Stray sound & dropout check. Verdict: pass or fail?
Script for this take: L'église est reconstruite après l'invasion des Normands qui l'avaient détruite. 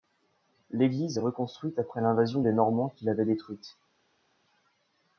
pass